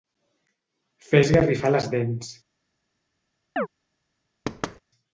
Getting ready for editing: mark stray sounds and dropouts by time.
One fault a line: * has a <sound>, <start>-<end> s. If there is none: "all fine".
* has a chirp, 3.6-3.7 s
* has a thud, 4.5-4.8 s